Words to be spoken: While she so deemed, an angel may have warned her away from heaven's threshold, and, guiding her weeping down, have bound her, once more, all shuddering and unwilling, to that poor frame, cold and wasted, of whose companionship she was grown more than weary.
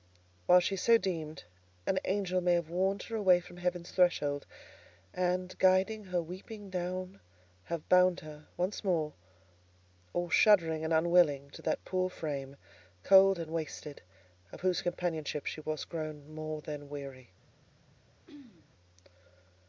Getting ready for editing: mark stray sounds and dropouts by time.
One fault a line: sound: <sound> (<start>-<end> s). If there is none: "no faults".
sound: throat clearing (18.3-18.7 s)